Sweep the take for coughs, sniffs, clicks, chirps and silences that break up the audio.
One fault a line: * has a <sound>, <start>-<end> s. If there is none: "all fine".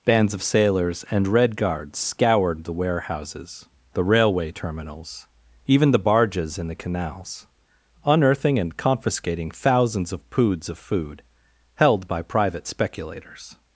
all fine